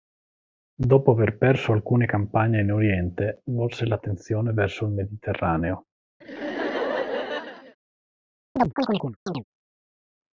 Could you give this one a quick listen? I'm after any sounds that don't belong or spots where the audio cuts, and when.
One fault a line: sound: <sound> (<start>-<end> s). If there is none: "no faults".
sound: laugh (6.2-7.8 s)
sound: chirp (8.6-9.4 s)